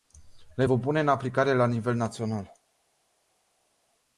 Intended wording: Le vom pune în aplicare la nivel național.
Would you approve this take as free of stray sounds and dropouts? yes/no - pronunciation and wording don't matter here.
yes